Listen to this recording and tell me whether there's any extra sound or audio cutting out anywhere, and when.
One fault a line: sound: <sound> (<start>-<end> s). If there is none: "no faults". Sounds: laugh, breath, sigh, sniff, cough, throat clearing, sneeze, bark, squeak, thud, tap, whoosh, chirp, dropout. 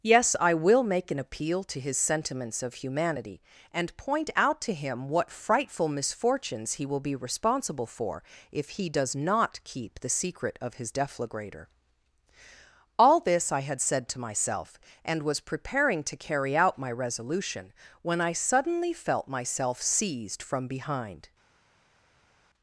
no faults